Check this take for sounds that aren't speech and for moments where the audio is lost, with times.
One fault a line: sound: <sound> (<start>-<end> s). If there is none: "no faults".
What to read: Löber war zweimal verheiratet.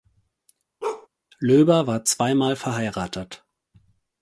sound: bark (0.8-1.1 s)